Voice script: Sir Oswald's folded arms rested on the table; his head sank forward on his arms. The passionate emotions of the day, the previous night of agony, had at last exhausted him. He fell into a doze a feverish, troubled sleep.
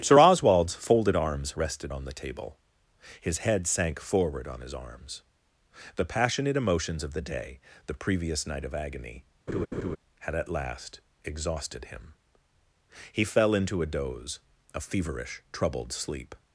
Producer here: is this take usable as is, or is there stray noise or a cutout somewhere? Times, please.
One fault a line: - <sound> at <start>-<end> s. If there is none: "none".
- laugh at 9.5-10.0 s